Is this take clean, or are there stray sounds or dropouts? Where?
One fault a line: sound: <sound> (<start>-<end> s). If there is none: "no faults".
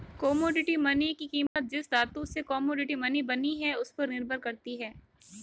sound: dropout (1.5-1.6 s)